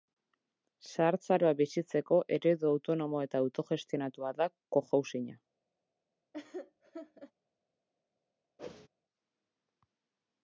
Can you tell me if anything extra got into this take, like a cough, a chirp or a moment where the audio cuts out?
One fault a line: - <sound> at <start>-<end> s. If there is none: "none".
- laugh at 6.3-7.3 s
- whoosh at 8.6-8.9 s